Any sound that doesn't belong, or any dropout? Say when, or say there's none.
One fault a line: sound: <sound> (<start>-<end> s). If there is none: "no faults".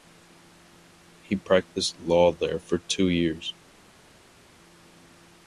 no faults